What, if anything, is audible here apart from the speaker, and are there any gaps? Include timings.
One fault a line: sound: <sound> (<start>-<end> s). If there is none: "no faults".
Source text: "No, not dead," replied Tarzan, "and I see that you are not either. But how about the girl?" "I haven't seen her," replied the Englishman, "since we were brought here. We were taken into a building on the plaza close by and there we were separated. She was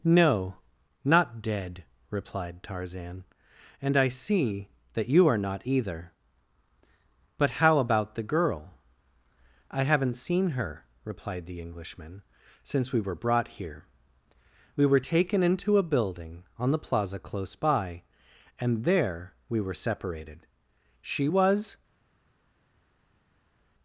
no faults